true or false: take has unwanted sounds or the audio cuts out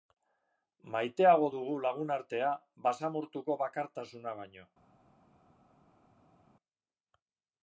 false